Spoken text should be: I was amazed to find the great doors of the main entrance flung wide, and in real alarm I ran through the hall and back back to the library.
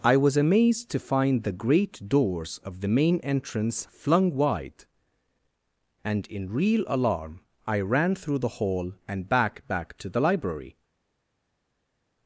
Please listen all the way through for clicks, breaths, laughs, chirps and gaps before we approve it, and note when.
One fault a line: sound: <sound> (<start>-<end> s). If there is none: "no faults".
no faults